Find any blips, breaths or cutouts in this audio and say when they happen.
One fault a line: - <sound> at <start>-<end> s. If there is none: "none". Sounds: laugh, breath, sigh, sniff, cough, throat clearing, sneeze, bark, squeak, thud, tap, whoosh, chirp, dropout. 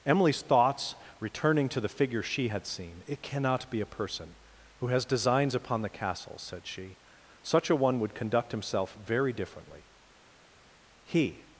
none